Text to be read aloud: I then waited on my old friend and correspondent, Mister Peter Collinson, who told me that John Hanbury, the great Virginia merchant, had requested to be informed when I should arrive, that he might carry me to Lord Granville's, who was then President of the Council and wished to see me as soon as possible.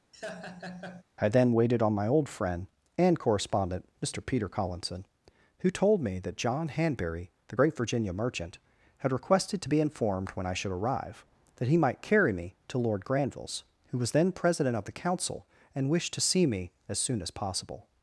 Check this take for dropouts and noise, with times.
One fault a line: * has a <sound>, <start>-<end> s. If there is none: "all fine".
* has a laugh, 0.1-1.0 s